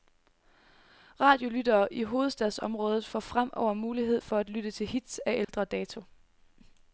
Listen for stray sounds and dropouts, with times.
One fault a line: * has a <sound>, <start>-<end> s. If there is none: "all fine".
* has a dropout, 5.4-5.5 s